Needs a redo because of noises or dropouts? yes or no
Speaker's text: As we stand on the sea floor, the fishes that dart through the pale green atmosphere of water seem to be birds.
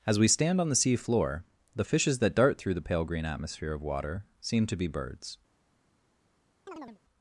yes